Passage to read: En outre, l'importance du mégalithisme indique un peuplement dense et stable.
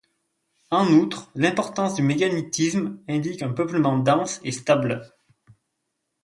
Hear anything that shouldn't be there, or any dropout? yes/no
no